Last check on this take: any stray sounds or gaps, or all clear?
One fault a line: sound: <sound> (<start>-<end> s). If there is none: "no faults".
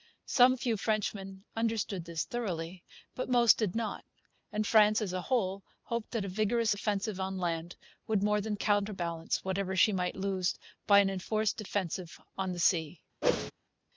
sound: whoosh (13.2-13.5 s)